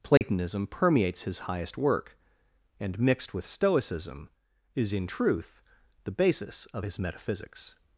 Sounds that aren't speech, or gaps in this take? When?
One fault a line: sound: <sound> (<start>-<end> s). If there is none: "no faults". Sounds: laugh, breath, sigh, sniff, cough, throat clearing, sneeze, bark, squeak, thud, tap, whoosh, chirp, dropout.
sound: dropout (0.2-0.2 s)